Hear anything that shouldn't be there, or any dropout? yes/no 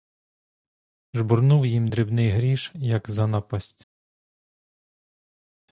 no